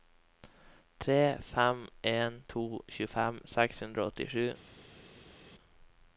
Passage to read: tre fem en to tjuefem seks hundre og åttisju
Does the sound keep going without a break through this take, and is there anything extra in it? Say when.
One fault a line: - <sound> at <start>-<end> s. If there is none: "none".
none